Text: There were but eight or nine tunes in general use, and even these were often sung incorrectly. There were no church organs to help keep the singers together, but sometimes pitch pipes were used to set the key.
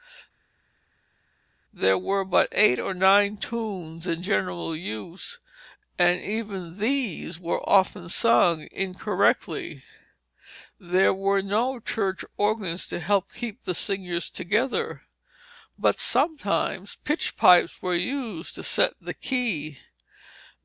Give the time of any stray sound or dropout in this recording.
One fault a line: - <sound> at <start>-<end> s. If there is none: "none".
none